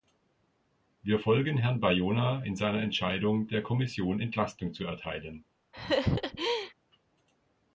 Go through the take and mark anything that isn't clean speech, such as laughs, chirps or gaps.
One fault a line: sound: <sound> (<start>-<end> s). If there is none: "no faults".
sound: laugh (5.7-6.7 s)